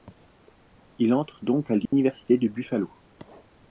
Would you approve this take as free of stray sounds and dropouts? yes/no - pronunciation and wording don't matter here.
no